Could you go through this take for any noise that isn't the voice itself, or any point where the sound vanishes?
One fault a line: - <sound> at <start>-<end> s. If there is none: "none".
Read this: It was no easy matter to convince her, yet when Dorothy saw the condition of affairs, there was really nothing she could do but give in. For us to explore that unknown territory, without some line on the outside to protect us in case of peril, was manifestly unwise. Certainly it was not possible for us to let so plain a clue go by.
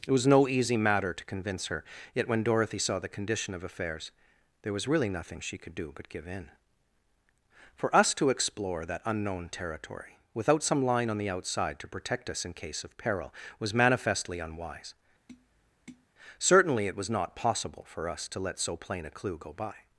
- tap at 15.3-16.1 s